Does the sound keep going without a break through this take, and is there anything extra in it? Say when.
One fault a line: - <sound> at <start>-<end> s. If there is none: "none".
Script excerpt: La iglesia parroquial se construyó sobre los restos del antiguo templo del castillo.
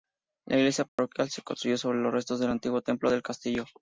- dropout at 0.9-1.0 s